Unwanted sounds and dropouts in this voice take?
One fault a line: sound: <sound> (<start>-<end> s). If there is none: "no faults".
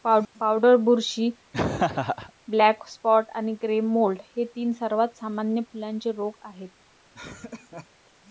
sound: laugh (1.5-2.3 s)
sound: laugh (7.1-7.9 s)